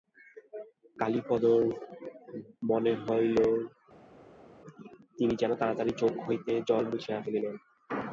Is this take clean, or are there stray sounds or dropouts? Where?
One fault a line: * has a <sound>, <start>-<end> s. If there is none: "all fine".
all fine